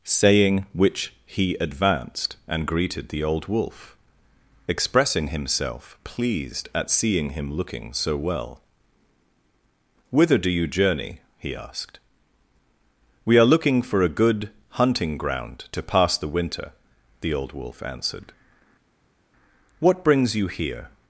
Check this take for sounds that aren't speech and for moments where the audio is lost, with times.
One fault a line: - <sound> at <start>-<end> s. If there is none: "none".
none